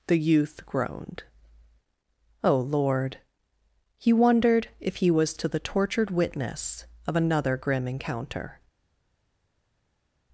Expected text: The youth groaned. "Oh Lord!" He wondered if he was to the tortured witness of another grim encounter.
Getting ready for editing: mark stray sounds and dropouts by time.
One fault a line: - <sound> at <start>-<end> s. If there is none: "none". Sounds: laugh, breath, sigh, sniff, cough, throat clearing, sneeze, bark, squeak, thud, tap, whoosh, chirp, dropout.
none